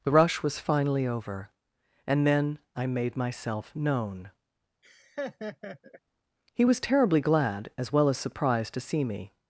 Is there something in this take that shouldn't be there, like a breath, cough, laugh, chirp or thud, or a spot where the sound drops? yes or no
yes